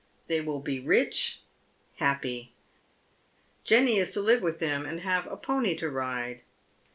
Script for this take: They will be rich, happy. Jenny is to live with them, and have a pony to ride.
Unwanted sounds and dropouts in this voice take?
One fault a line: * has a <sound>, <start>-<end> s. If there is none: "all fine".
all fine